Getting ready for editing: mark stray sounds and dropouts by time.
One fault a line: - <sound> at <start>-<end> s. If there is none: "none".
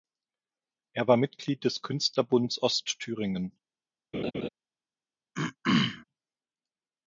- laugh at 4.1-4.5 s
- throat clearing at 5.3-6.0 s